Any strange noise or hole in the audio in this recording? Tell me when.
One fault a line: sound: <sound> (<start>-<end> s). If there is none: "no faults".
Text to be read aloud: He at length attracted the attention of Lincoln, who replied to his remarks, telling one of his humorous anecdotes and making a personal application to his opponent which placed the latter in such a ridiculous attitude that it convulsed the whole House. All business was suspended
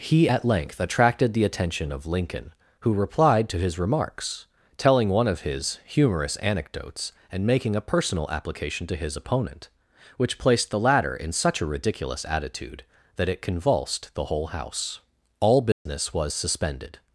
sound: dropout (15.7-15.9 s)